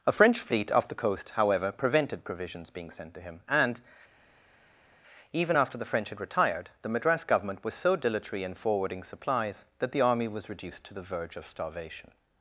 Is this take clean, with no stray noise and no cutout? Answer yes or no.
yes